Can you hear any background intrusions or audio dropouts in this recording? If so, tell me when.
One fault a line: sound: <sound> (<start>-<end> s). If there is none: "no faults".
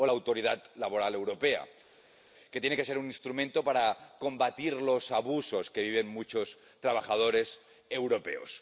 no faults